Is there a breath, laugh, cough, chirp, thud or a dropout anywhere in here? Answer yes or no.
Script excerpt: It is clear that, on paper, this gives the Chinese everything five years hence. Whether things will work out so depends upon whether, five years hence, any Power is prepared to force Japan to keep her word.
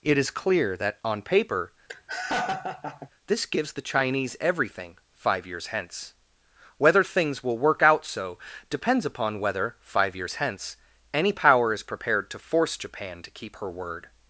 yes